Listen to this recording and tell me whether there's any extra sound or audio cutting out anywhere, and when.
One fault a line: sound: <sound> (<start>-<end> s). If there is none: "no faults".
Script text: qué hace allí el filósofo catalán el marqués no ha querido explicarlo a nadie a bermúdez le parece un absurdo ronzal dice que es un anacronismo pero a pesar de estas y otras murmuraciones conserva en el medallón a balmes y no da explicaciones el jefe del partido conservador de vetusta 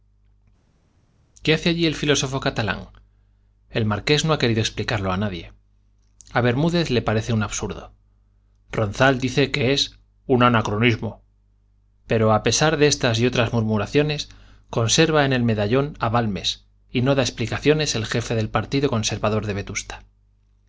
no faults